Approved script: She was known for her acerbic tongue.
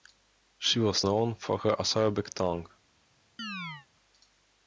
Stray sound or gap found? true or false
true